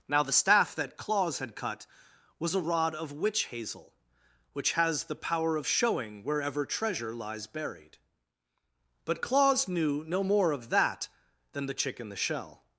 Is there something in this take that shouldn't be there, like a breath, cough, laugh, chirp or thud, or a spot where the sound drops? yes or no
no